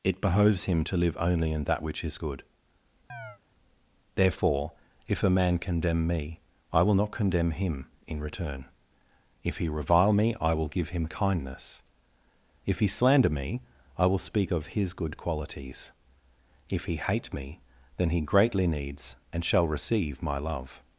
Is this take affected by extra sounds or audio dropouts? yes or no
yes